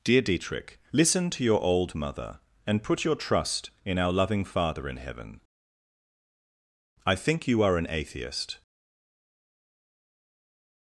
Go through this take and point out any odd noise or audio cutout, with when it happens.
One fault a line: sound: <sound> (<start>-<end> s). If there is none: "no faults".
no faults